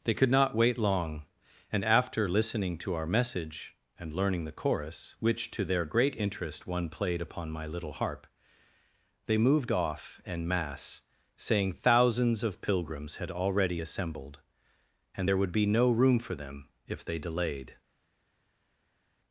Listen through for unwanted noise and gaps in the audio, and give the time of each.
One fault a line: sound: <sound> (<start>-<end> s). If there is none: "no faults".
no faults